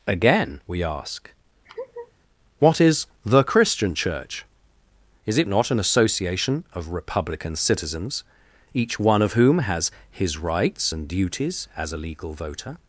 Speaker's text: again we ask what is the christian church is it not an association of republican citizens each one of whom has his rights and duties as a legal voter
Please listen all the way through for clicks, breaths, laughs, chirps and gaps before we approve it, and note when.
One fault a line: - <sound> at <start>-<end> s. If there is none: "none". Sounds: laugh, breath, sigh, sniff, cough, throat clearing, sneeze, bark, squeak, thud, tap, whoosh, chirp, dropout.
- laugh at 1.7-2.1 s